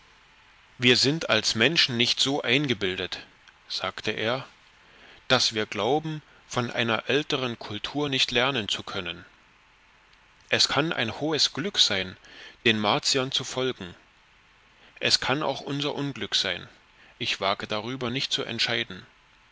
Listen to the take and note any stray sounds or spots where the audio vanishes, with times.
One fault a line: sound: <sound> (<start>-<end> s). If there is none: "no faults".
no faults